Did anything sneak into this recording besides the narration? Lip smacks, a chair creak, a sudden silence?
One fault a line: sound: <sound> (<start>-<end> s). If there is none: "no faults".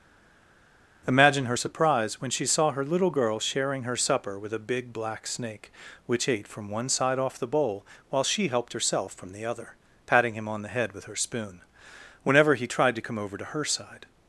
no faults